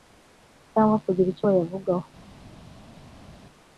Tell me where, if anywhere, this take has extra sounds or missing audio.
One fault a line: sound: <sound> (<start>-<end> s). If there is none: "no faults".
no faults